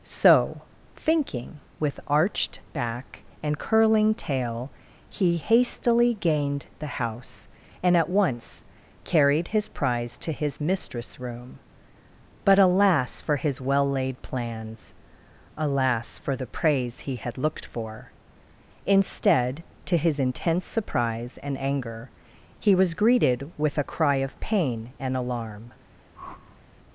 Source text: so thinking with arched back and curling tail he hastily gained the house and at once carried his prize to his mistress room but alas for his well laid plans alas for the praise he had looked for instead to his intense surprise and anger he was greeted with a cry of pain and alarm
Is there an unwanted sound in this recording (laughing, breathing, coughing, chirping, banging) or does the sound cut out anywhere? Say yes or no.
yes